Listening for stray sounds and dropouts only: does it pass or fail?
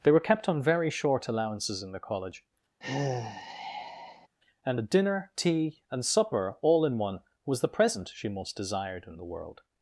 fail